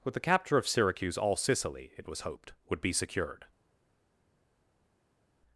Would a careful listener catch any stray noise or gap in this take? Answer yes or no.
no